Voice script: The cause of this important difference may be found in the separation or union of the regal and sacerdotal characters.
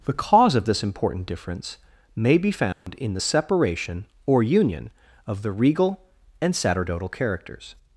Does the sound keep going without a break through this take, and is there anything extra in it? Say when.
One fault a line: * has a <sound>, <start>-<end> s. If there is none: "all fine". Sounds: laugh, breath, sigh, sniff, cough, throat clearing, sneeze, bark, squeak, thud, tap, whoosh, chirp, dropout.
* has a dropout, 2.7-2.9 s